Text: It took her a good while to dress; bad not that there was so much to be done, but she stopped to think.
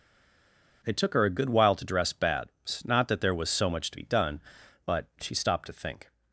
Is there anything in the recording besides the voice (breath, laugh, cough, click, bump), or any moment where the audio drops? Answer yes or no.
no